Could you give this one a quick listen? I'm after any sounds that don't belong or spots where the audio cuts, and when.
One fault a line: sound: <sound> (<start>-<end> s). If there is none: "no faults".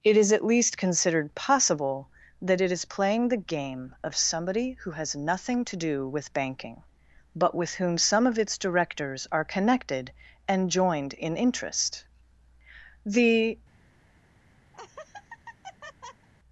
sound: laugh (14.7-16.3 s)